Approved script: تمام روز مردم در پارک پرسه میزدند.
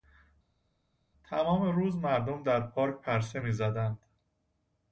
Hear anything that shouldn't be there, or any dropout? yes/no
no